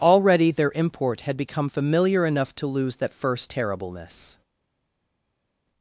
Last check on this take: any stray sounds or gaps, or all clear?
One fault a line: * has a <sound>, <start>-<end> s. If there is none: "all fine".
all fine